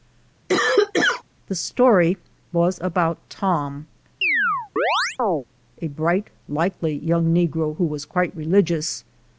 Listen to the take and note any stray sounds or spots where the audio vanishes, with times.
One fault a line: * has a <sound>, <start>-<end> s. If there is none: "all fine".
* has a cough, 0.5-1.2 s
* has a chirp, 4.2-5.4 s